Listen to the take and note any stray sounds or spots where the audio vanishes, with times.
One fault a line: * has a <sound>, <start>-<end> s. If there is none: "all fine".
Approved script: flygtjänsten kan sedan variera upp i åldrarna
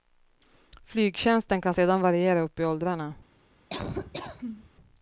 * has a laugh, 3.7-4.7 s